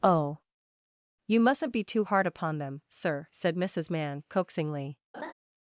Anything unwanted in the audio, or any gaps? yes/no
yes